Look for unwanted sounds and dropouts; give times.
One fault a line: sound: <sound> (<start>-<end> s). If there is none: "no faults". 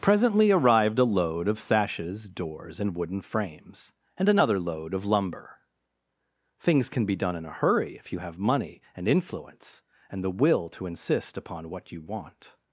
no faults